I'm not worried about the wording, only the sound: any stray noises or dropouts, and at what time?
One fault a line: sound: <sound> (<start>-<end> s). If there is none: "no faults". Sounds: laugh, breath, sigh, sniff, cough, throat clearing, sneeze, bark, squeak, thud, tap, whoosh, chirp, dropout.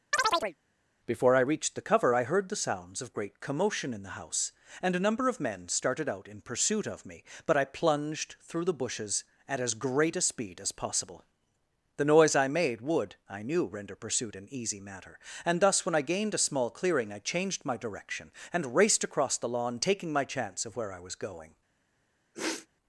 sound: chirp (0.1-0.6 s)
sound: sniff (22.3-22.7 s)